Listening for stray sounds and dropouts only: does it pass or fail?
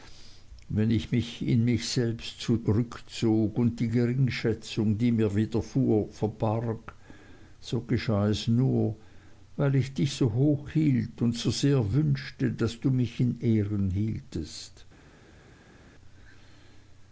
pass